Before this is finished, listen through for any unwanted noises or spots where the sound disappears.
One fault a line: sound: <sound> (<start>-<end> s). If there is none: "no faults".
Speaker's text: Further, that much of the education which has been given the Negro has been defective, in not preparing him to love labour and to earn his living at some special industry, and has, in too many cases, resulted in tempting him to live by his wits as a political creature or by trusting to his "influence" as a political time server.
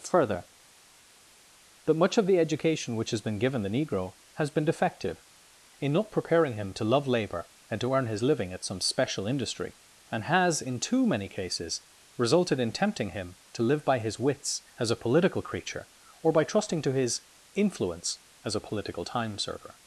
no faults